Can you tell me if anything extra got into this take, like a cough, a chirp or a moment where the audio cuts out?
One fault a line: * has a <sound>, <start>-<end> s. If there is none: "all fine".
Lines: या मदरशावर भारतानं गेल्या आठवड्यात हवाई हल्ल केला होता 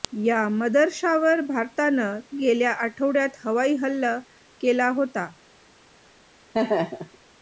* has a laugh, 6.5-7.2 s